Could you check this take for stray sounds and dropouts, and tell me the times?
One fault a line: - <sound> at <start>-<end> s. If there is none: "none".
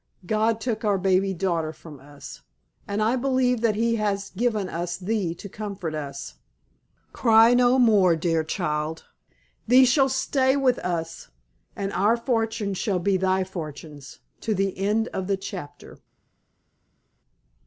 none